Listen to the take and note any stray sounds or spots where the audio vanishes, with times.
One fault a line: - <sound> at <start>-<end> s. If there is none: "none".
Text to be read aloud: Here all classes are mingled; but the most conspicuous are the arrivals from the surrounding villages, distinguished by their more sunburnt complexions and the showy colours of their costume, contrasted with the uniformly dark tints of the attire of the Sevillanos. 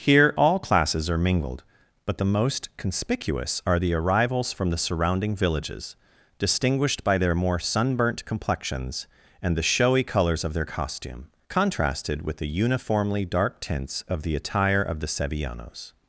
none